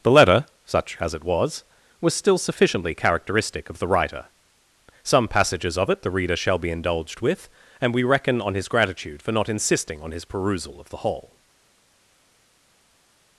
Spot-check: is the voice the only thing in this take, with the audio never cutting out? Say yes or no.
yes